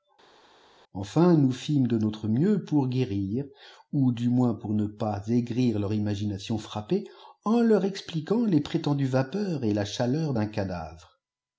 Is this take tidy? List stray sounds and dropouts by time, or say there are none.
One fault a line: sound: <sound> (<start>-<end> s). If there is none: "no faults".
no faults